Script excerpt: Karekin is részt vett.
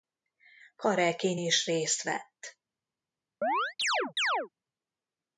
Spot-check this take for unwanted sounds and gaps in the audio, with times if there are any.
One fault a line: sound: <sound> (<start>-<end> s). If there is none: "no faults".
sound: chirp (3.4-4.5 s)